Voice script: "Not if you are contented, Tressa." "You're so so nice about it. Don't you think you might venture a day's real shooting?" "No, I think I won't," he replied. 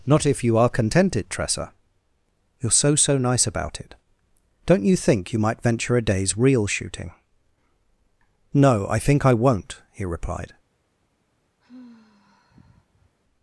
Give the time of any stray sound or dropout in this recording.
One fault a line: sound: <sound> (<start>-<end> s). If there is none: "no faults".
sound: sigh (11.6-13.2 s)